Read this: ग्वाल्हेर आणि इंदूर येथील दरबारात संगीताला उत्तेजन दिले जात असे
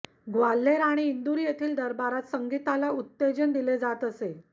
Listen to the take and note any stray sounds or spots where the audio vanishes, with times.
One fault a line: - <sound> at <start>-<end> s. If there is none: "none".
none